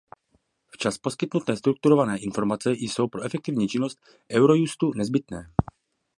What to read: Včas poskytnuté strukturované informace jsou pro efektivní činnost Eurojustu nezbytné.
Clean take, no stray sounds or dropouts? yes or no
yes